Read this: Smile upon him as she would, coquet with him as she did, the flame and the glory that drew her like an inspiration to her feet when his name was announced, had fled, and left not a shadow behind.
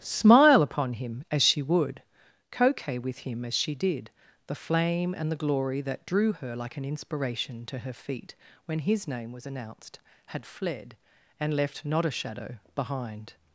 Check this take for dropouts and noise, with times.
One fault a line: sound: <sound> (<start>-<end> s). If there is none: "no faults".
no faults